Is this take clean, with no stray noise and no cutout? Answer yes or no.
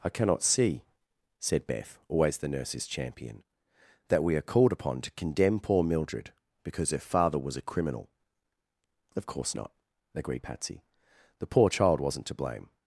yes